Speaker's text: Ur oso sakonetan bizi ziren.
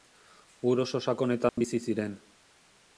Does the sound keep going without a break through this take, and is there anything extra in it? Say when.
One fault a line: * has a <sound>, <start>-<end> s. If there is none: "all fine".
* has a dropout, 1.5-1.6 s